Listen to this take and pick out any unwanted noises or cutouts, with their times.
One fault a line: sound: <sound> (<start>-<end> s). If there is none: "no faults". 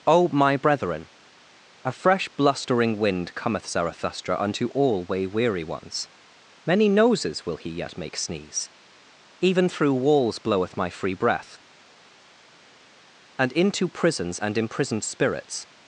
no faults